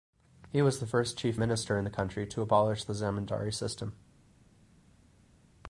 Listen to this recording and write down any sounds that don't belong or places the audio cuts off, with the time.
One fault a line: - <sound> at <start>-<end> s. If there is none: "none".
none